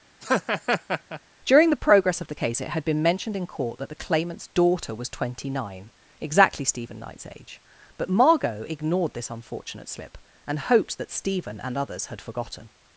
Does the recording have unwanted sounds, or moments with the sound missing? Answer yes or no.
yes